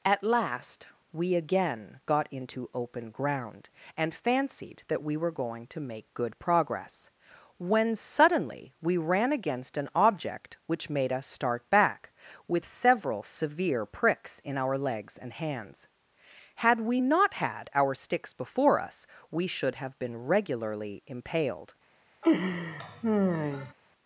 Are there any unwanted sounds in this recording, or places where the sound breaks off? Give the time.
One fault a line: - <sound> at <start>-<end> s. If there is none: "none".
- laugh at 22.2-23.7 s